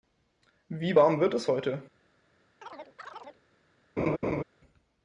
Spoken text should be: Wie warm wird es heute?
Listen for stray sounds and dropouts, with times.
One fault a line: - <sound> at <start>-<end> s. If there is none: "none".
- chirp at 2.6-3.4 s
- laugh at 4.0-4.4 s